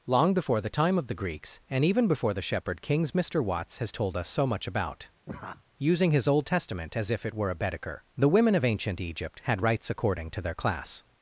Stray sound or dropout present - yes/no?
yes